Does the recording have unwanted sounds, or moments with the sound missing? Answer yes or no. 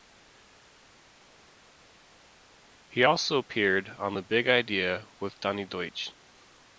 no